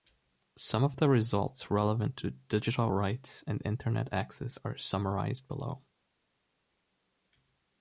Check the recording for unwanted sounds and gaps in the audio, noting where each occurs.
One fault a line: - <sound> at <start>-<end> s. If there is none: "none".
none